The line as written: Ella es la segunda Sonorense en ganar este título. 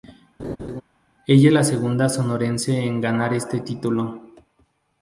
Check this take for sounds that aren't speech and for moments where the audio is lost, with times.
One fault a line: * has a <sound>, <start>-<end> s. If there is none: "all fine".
* has a laugh, 0.4-0.8 s